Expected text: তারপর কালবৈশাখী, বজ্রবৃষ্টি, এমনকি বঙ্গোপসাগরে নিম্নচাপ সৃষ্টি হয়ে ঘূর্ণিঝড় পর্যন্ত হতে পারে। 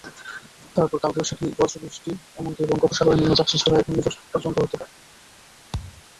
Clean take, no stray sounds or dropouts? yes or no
no